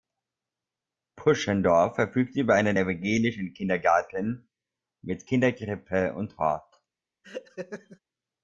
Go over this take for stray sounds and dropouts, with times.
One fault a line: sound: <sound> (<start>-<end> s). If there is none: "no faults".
sound: laugh (7.2-8.0 s)